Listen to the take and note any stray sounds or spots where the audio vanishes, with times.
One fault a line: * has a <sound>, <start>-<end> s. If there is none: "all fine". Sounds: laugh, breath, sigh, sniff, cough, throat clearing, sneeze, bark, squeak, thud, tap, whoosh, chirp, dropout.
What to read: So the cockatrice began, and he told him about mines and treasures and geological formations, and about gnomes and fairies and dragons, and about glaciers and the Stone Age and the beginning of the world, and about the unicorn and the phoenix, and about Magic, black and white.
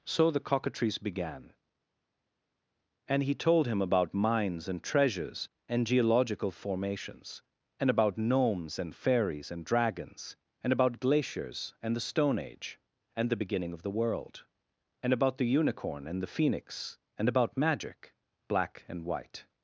all fine